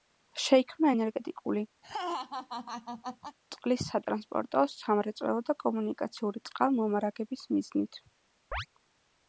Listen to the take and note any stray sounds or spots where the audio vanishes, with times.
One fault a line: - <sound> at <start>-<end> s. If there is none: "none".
- laugh at 1.8-3.4 s
- chirp at 8.5-8.7 s